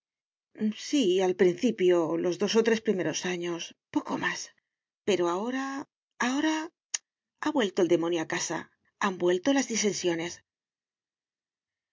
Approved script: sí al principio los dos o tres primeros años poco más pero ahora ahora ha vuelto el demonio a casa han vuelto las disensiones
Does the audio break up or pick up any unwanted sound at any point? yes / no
no